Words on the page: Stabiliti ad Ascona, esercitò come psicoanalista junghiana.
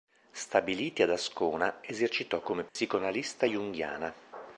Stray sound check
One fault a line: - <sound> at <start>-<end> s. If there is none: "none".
- dropout at 2.7-2.8 s